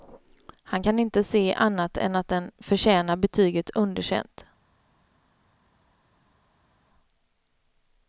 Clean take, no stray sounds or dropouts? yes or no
yes